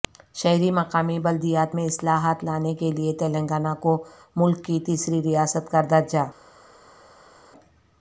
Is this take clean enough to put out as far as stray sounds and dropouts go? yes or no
yes